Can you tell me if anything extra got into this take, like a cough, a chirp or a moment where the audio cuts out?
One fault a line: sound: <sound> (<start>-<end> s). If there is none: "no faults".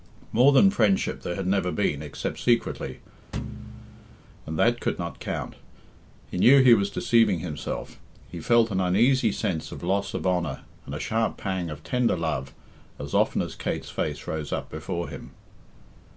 sound: thud (3.3-4.2 s)